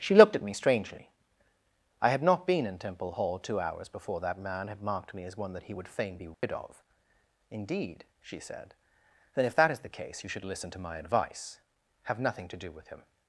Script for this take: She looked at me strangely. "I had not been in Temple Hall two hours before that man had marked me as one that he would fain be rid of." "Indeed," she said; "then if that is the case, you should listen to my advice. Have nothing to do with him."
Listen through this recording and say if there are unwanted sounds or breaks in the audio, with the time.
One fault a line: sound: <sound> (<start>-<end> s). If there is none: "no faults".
sound: dropout (6.3-6.4 s)